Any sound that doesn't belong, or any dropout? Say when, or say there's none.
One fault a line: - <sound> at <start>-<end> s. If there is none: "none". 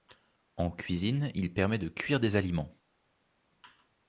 none